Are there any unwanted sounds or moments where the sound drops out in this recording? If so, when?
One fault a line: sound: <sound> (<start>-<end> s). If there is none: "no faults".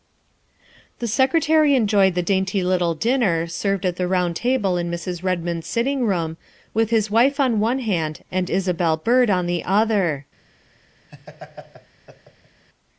sound: laugh (11.1-12.6 s)